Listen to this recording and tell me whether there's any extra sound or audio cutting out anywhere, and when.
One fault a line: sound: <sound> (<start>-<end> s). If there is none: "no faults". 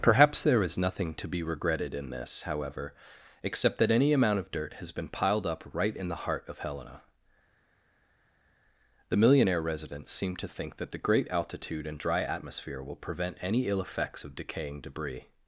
no faults